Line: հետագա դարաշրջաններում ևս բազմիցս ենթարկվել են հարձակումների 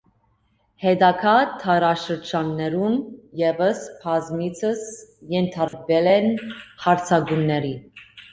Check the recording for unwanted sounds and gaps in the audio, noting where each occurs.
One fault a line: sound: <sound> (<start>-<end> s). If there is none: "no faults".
sound: dropout (5.7-5.7 s)